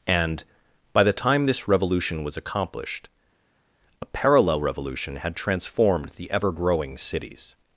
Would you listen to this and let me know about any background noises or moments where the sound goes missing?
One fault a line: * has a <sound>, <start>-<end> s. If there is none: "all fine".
all fine